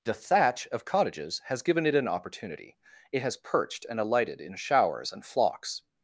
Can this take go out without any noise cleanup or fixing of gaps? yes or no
yes